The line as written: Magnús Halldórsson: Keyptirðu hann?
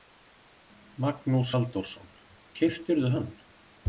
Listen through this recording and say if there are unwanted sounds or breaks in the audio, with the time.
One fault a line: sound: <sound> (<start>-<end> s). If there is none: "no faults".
no faults